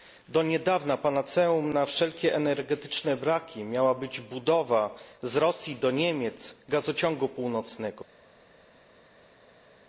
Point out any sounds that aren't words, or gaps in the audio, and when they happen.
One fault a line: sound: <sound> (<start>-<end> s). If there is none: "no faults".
no faults